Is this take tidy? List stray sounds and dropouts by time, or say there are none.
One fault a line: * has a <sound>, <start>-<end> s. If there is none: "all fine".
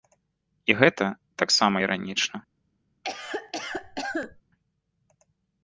* has a cough, 3.0-4.4 s